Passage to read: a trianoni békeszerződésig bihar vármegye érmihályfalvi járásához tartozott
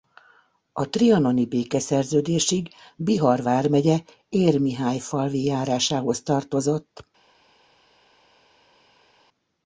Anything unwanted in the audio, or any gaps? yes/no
no